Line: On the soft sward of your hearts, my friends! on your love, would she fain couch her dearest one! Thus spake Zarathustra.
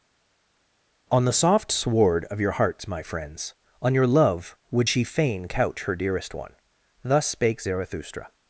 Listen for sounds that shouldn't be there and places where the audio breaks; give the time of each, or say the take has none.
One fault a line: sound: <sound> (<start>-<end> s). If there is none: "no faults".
no faults